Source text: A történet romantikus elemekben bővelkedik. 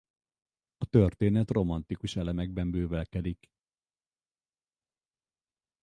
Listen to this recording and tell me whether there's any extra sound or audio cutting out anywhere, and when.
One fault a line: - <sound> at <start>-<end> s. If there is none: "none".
none